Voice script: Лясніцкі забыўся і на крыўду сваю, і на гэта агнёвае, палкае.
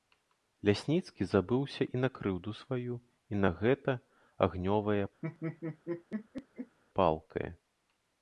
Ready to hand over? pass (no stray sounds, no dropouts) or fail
fail